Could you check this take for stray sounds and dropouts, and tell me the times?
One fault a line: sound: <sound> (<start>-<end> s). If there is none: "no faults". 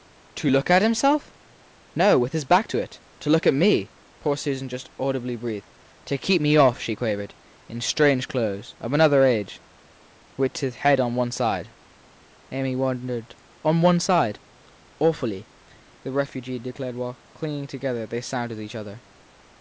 no faults